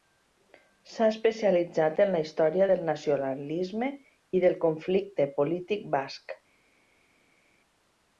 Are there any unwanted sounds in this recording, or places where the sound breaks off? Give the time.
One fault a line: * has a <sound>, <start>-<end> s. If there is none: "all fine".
all fine